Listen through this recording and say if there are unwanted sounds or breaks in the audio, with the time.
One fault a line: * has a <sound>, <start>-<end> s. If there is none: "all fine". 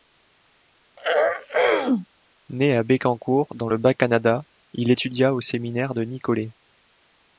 * has a throat clearing, 1.0-2.1 s